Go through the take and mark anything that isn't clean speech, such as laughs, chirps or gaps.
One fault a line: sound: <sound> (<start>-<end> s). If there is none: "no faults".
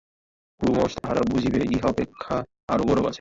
sound: dropout (1.0-1.0 s)